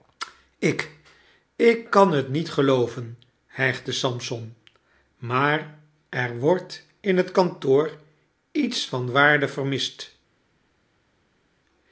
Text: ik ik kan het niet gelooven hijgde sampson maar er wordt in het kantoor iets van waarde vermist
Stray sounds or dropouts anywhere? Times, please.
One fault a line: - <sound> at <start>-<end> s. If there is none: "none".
none